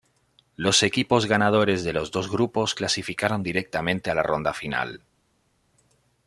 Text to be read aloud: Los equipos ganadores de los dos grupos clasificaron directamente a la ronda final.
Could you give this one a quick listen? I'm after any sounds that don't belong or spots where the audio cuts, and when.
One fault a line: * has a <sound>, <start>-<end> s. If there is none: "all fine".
all fine